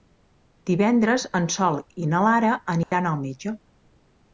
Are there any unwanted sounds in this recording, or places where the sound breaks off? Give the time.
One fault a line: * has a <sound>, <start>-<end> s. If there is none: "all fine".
* has a dropout, 2.8-2.9 s